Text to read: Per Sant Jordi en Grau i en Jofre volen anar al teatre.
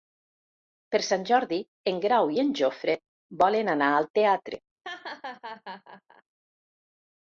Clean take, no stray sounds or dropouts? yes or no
no